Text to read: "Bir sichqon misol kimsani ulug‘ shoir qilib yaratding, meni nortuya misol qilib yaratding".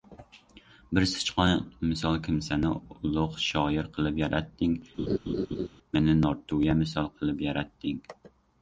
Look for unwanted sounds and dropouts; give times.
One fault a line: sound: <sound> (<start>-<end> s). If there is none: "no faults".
sound: laugh (5.0-5.7 s)